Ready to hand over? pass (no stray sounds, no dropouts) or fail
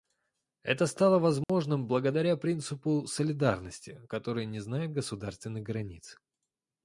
fail